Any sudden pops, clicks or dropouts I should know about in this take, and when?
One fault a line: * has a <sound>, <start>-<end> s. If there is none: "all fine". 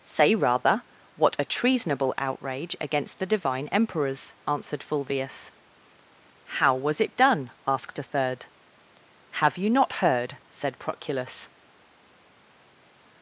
all fine